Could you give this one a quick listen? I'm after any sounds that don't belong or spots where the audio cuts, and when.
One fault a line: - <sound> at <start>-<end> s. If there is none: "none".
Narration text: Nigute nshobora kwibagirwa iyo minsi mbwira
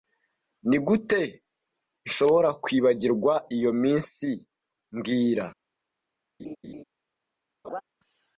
- laugh at 6.4-6.8 s
- laugh at 7.6-7.8 s